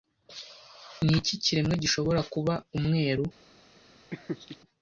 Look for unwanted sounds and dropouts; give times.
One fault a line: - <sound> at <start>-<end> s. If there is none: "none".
- laugh at 4.1-4.6 s